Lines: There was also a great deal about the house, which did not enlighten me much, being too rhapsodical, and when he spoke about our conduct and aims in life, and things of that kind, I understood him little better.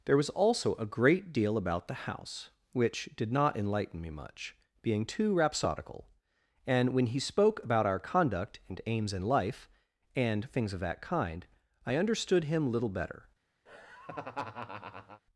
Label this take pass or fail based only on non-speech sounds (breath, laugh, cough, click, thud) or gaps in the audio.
fail